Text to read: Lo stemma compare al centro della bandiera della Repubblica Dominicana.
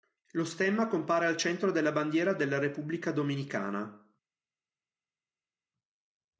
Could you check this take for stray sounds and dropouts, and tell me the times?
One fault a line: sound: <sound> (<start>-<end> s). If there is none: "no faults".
no faults